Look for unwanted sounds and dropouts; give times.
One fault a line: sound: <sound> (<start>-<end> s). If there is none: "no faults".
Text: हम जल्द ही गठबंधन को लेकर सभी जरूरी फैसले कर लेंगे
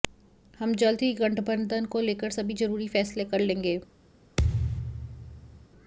sound: thud (4.4-5.7 s)